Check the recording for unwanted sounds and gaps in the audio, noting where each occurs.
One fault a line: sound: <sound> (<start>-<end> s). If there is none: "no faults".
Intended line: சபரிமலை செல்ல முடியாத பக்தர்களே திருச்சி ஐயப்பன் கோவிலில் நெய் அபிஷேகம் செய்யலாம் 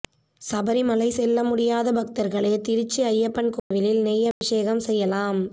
sound: dropout (3.6-3.7 s)
sound: dropout (4.3-4.4 s)